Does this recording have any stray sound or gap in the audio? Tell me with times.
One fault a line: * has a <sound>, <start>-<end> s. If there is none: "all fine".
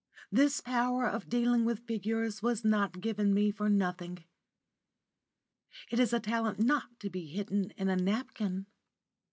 all fine